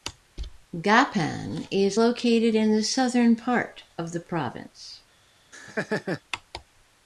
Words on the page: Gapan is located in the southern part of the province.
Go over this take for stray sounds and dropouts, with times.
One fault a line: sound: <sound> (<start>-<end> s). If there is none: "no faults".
sound: laugh (5.5-6.2 s)